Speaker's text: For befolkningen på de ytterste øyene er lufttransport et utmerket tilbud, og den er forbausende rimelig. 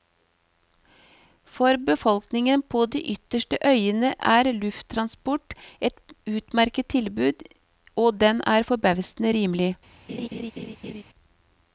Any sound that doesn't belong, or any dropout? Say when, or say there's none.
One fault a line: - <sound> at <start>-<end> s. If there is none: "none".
- laugh at 10.1-11.0 s